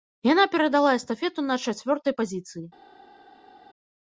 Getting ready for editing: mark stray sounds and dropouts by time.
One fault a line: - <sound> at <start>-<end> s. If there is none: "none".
none